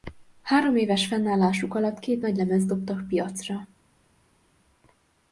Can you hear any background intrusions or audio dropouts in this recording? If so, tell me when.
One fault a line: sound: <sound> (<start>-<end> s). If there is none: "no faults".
no faults